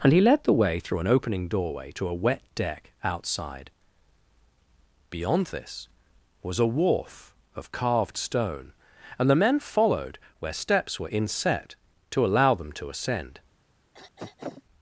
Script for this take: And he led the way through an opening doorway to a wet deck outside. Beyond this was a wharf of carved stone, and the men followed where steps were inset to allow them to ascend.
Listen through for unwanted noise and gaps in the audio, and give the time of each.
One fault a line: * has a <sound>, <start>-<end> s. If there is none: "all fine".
* has a throat clearing, 13.9-14.6 s